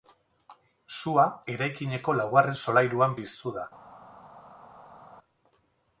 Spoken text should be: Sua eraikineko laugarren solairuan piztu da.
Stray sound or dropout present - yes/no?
no